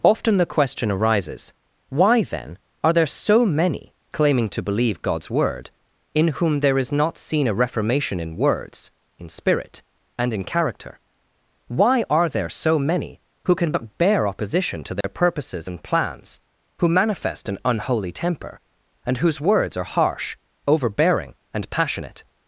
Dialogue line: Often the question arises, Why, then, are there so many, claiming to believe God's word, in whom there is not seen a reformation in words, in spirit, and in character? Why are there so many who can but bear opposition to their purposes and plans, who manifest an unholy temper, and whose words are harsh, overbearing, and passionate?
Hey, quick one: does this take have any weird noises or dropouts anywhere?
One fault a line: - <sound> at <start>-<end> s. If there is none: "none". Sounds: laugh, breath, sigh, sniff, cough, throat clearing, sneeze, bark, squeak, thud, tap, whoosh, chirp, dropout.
- dropout at 15.0-15.0 s